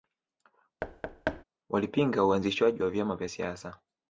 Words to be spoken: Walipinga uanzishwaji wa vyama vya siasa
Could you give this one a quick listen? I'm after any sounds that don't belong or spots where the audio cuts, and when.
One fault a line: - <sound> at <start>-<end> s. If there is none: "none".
- thud at 0.8-1.4 s